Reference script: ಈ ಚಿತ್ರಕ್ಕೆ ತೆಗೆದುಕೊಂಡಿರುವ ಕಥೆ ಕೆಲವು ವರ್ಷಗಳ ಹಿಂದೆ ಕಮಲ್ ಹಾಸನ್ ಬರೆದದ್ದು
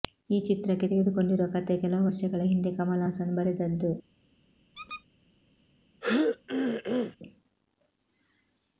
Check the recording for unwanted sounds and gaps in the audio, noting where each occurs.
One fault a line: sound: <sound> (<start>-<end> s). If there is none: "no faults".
sound: squeak (4.7-5.0 s)
sound: throat clearing (6.0-7.2 s)